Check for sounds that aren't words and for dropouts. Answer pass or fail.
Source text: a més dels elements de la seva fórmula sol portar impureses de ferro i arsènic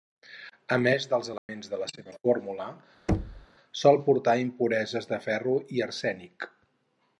fail